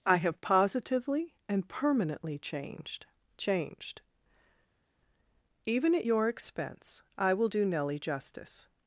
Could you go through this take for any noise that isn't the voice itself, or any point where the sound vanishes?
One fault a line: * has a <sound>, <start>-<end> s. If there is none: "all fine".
all fine